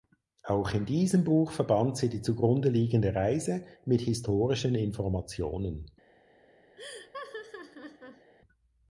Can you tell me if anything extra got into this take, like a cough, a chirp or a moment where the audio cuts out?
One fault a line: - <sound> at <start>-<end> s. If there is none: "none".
- laugh at 6.8-8.3 s